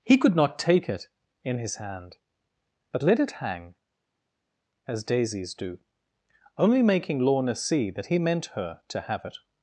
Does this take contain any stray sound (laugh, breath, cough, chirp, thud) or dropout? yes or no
no